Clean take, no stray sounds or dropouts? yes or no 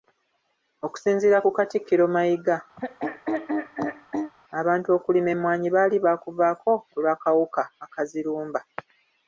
no